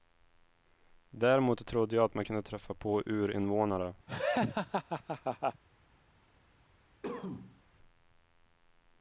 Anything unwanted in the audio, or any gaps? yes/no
yes